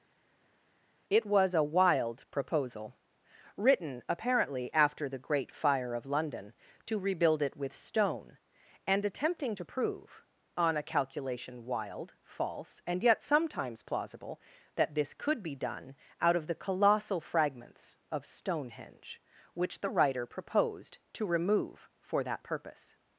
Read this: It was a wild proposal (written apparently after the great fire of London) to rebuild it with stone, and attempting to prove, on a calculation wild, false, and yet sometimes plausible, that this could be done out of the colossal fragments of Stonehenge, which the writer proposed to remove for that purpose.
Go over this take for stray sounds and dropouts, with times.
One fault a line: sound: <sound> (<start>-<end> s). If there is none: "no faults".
no faults